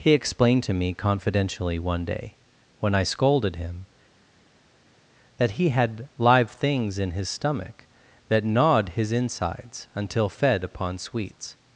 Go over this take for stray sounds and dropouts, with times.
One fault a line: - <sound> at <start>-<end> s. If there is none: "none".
none